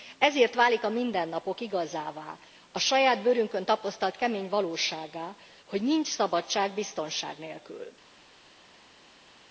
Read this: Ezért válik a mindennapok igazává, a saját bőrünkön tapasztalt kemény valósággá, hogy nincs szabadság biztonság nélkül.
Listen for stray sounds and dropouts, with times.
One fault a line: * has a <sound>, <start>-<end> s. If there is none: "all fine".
all fine